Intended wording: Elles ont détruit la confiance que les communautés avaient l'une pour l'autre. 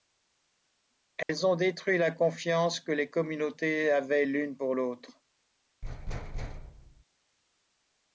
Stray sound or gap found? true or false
true